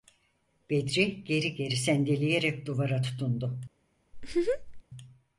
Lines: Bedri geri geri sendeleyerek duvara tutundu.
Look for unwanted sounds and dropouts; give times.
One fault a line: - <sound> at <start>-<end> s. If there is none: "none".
- laugh at 4.1-4.8 s